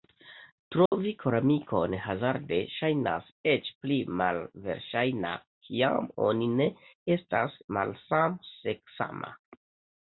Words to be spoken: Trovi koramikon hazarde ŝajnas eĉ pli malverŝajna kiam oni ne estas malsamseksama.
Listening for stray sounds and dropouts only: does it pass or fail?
fail